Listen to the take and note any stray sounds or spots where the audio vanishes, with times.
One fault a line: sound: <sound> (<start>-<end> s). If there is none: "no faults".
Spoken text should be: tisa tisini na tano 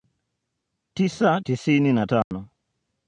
sound: dropout (2.2-2.3 s)